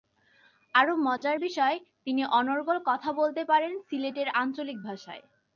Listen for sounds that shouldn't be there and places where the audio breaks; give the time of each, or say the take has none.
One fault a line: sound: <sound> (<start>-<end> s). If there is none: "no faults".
sound: dropout (1.2-1.2 s)